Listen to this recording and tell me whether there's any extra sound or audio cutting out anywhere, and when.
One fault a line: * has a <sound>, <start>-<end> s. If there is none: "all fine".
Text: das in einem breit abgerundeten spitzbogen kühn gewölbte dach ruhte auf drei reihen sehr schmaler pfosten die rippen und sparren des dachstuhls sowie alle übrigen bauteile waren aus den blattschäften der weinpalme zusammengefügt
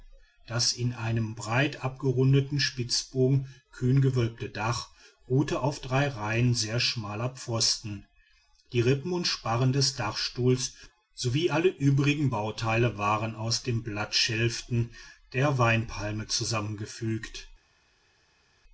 all fine